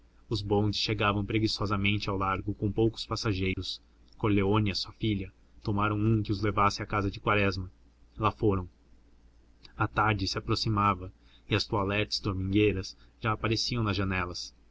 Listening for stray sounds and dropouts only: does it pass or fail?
fail